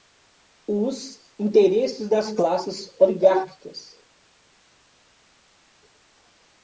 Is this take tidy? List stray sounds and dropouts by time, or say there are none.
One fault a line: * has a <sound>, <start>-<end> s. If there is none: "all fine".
all fine